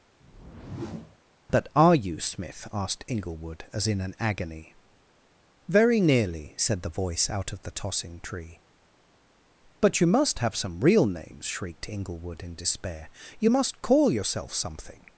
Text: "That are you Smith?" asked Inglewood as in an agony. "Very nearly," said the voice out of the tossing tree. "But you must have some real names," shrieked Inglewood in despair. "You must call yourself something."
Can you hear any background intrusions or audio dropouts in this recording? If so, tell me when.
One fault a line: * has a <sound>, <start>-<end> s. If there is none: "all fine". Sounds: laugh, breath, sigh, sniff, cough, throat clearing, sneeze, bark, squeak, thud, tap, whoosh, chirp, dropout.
* has a whoosh, 0.2-1.2 s